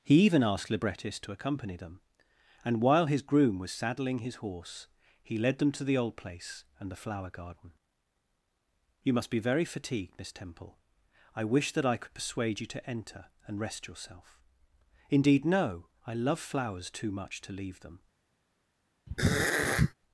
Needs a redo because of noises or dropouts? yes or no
yes